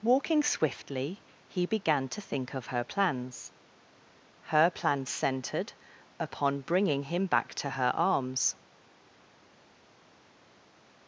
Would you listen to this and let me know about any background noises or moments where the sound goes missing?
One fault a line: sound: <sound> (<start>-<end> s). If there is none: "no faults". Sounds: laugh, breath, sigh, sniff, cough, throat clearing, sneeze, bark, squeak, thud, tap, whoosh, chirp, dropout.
no faults